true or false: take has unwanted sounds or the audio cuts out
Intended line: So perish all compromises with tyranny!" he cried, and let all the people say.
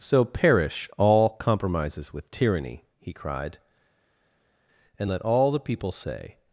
false